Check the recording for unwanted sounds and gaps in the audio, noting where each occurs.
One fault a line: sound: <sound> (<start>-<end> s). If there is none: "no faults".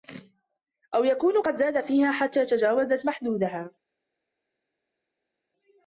no faults